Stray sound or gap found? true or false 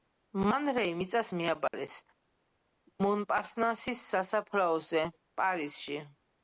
true